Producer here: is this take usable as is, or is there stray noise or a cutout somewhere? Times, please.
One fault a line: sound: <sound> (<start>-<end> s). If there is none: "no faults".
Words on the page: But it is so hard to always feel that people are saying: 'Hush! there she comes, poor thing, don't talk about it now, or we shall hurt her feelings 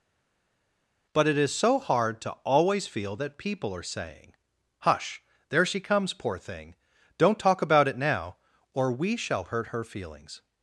no faults